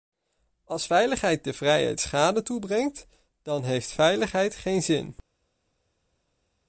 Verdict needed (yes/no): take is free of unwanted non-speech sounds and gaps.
yes